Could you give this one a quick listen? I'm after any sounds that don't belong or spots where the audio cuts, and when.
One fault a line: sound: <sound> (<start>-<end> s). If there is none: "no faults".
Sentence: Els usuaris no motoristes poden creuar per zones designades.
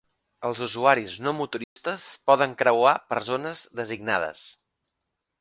sound: dropout (1.6-1.8 s)